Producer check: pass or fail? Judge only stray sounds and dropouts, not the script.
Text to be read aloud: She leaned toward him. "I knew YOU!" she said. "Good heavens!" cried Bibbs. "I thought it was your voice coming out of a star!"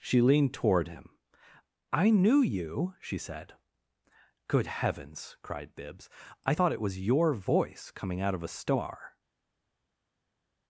pass